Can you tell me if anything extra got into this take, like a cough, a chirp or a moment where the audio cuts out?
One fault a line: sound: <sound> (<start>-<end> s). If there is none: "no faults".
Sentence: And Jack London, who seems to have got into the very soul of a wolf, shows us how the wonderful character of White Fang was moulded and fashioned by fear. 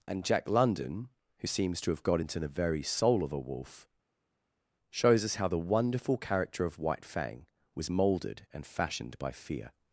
no faults